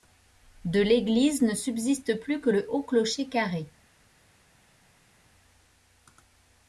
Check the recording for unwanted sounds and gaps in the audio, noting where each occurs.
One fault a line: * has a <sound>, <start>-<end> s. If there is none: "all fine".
all fine